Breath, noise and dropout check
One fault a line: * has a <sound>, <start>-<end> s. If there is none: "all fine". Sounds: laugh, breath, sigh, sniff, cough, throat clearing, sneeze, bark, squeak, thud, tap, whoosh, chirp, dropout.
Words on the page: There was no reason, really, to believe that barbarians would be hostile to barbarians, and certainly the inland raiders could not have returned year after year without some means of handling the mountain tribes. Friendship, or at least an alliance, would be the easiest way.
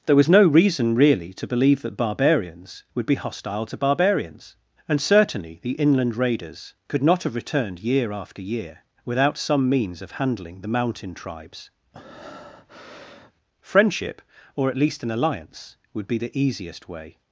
* has a breath, 11.9-13.3 s